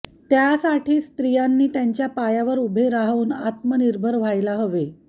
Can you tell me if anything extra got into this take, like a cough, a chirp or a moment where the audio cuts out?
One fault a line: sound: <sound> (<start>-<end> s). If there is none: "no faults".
no faults